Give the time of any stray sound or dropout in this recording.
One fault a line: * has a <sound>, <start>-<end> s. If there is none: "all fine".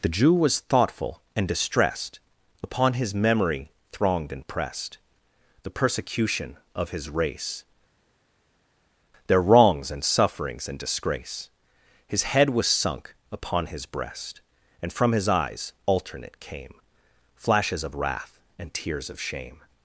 all fine